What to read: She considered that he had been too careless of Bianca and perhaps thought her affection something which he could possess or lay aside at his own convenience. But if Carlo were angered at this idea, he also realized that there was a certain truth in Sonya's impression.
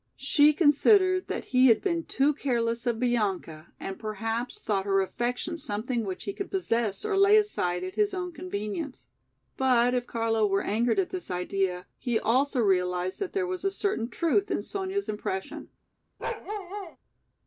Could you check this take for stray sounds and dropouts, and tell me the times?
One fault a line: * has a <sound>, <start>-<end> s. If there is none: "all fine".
* has a bark, 16.2-17.0 s